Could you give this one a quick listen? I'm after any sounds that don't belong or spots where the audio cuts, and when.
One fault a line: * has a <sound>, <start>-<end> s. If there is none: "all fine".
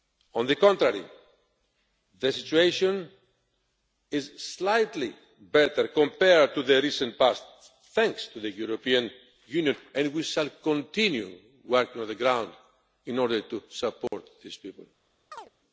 * has a dropout, 14.1-14.1 s
* has a chirp, 15.3-15.5 s